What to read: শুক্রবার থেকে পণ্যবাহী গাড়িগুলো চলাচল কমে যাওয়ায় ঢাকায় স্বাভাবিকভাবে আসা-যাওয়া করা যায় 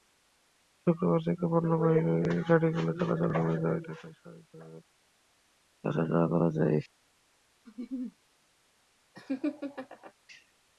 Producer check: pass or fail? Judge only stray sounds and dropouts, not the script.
fail